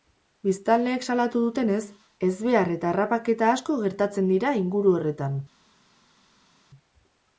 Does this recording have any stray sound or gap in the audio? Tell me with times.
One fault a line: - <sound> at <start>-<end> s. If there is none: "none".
none